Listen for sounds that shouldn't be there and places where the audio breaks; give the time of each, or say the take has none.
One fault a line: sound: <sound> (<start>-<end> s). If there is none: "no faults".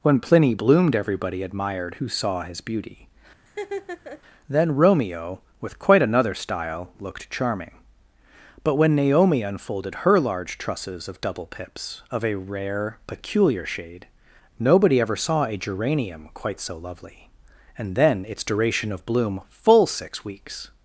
sound: laugh (3.5-4.2 s)